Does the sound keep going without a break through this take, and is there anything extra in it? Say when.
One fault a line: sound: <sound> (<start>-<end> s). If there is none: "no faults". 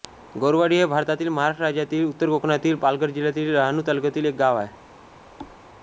sound: thud (5.4-5.6 s)